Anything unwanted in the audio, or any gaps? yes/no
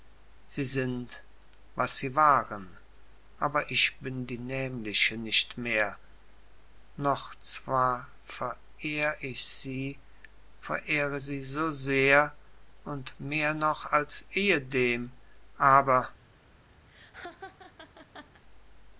yes